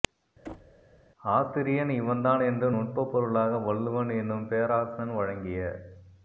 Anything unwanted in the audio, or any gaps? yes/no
yes